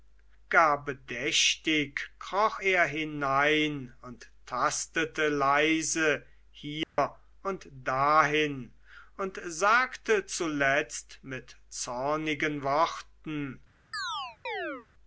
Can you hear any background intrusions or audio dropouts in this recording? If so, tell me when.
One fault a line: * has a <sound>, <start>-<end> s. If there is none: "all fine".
* has a dropout, 6.8-7.0 s
* has a chirp, 13.9-14.9 s